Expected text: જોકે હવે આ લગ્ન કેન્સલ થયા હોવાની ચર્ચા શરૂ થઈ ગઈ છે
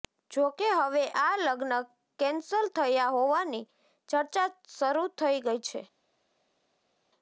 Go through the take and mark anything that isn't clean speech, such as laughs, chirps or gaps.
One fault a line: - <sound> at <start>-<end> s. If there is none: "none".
none